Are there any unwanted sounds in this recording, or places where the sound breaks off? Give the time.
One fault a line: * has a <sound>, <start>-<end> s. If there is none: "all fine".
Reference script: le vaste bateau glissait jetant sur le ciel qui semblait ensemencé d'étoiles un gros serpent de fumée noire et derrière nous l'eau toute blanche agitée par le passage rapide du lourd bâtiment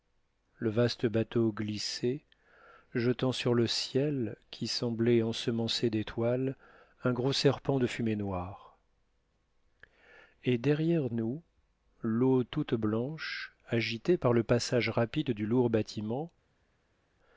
all fine